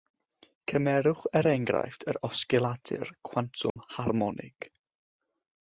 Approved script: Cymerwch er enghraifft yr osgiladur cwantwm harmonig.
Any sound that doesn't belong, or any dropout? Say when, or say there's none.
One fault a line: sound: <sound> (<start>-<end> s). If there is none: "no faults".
sound: dropout (3.7-3.8 s)